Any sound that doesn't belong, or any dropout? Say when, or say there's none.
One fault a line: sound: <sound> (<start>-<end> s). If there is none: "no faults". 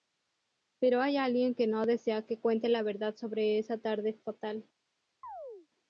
sound: chirp (5.2-5.7 s)